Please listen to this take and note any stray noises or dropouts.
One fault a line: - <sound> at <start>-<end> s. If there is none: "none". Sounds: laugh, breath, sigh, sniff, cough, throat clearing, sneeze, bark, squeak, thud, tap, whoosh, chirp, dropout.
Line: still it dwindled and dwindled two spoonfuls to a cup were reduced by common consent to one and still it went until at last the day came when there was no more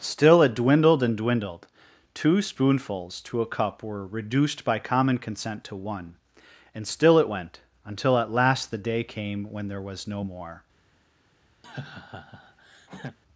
- laugh at 11.6-13.2 s